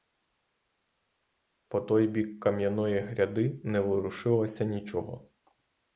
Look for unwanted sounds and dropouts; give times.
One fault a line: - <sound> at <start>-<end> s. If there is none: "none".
none